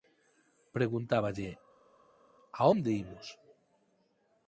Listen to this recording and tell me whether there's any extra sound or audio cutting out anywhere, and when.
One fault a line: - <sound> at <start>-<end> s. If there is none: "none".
none